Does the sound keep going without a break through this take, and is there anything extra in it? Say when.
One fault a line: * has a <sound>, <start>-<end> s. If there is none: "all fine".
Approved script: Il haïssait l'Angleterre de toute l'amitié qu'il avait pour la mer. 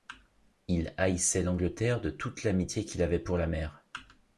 all fine